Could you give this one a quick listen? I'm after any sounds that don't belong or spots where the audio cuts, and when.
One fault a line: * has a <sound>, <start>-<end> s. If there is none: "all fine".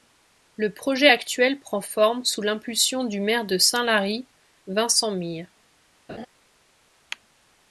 * has a laugh, 6.1-6.3 s